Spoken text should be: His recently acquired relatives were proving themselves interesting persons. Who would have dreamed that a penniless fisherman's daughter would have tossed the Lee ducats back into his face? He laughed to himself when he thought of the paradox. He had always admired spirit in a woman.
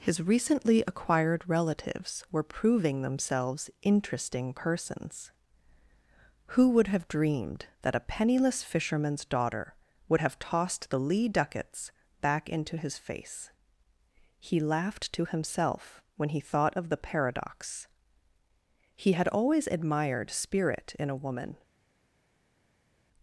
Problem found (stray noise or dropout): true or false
false